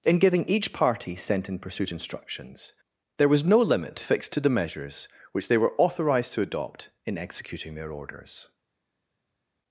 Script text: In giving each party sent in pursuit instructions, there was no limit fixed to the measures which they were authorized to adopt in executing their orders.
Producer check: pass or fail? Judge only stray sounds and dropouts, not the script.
pass